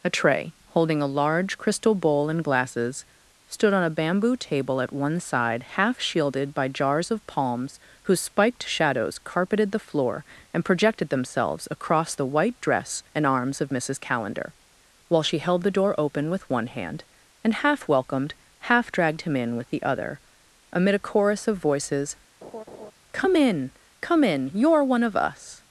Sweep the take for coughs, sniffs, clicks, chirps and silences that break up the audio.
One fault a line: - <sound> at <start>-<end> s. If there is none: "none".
- laugh at 22.4-22.9 s